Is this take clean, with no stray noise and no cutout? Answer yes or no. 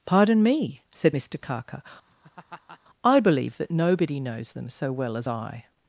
no